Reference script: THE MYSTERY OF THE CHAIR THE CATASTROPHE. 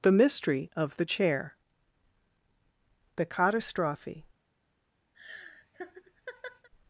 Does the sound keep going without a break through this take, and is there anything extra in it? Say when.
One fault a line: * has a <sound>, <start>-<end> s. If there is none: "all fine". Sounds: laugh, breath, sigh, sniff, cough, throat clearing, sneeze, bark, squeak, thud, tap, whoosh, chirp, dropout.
* has a laugh, 5.1-6.7 s